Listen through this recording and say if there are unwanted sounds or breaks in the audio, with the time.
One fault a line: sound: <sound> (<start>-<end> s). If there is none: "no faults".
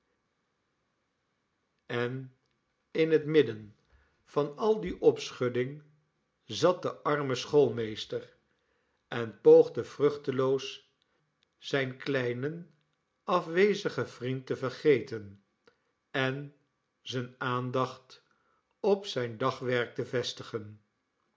no faults